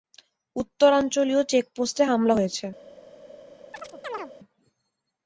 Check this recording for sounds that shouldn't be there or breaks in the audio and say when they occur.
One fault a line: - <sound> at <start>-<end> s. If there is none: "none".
- chirp at 3.7-4.3 s